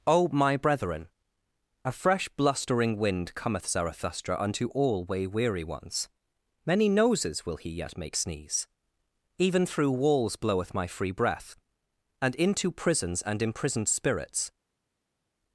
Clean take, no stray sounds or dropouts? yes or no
yes